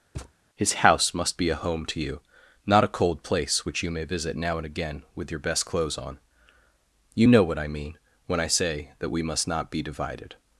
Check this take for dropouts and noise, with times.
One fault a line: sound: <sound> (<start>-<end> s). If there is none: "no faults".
sound: thud (0.1-0.3 s)